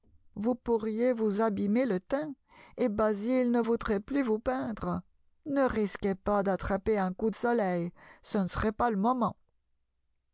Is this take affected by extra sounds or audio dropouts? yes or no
no